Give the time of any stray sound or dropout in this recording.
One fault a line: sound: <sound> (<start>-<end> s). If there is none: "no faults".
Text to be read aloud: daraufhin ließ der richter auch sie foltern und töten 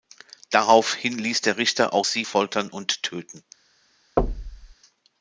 sound: thud (4.2-4.7 s)